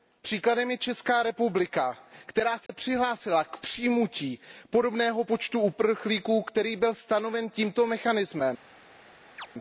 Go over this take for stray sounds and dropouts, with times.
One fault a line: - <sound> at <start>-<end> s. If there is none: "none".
- dropout at 2.7-2.7 s
- chirp at 9.4-9.5 s